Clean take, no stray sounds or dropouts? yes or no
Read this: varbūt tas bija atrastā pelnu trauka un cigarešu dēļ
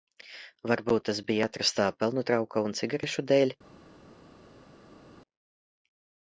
yes